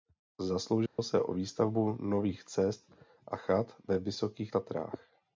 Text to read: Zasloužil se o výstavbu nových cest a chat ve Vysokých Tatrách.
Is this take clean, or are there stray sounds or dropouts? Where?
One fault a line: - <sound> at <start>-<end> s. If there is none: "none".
- dropout at 0.9-1.0 s